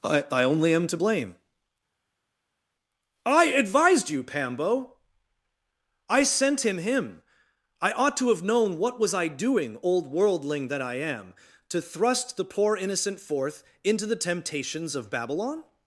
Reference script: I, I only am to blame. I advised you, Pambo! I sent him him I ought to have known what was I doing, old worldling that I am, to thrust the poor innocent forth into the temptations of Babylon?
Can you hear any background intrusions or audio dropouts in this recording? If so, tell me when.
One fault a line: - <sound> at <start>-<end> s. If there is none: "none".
none